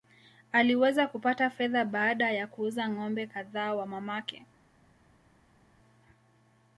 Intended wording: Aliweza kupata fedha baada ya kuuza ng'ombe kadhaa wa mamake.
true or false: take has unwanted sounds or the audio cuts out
false